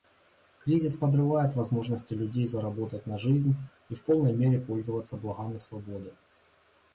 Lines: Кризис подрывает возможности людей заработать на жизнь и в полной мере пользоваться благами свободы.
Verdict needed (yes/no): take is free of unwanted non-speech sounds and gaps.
yes